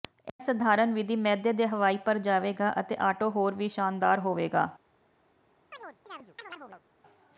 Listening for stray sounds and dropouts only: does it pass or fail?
fail